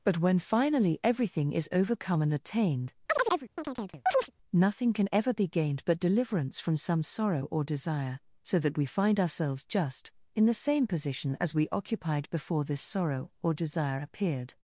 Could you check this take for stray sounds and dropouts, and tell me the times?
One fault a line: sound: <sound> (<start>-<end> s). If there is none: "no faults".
sound: chirp (3.1-4.3 s)